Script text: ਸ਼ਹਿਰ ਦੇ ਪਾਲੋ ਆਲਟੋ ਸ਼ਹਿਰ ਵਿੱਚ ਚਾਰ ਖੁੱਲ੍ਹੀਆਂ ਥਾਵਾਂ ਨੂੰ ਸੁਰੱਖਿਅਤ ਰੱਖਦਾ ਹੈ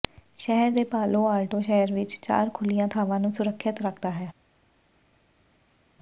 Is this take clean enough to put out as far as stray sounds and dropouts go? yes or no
yes